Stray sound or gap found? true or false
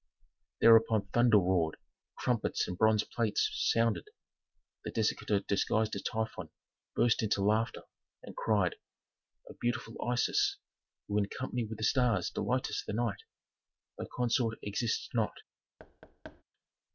true